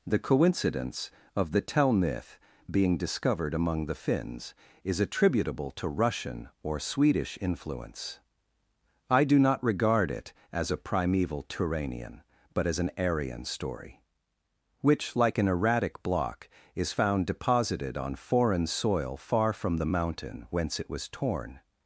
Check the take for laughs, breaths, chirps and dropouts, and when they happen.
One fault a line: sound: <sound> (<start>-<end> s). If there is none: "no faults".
no faults